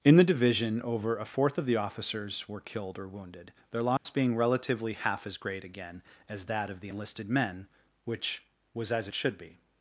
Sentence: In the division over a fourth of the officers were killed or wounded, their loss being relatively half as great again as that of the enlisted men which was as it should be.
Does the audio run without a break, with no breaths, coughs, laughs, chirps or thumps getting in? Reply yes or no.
no